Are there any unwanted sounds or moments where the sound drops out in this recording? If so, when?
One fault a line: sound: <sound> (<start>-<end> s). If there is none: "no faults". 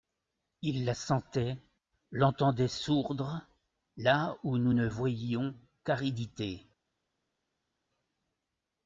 no faults